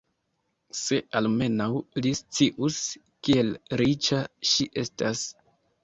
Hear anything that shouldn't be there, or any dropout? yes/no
no